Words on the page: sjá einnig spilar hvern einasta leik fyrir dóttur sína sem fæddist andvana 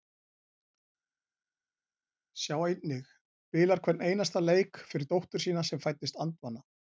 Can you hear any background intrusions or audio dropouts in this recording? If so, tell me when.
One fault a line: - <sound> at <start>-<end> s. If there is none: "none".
none